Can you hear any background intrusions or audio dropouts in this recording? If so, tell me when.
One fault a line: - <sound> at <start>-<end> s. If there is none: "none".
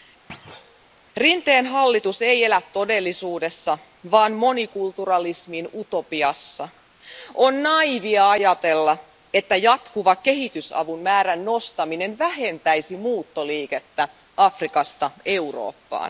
- thud at 0.3-0.9 s